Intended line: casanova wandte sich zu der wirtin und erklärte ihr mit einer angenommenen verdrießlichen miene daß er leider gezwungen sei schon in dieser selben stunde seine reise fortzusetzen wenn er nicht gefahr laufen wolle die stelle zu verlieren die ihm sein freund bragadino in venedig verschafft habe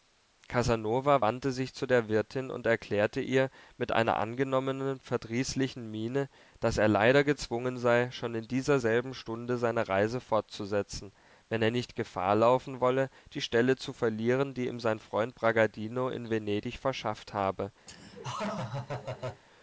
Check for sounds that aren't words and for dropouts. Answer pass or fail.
fail